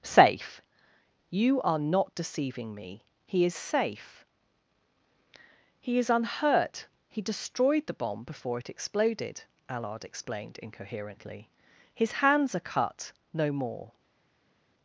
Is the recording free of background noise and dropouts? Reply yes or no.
yes